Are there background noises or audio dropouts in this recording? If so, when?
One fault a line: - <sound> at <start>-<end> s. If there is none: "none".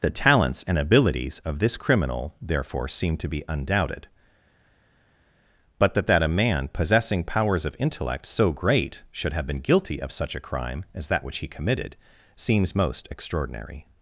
none